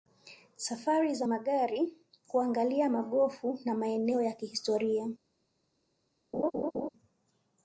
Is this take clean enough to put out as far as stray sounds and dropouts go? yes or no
no